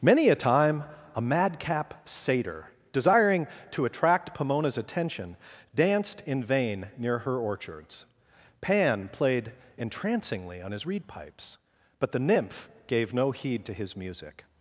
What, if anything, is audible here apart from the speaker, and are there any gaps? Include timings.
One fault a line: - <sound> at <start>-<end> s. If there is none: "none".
none